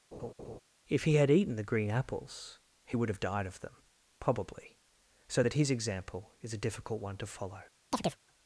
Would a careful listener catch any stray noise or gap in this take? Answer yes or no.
yes